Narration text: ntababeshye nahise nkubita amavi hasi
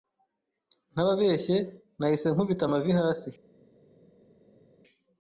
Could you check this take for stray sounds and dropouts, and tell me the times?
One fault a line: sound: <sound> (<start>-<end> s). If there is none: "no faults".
no faults